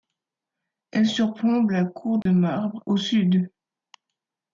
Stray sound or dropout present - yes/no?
yes